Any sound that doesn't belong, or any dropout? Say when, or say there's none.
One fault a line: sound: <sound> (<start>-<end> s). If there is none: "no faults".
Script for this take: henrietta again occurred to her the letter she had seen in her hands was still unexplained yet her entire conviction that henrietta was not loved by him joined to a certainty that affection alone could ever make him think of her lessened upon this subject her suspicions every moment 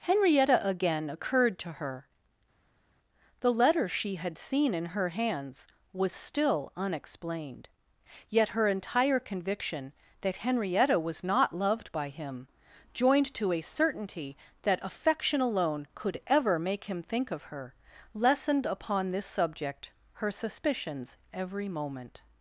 no faults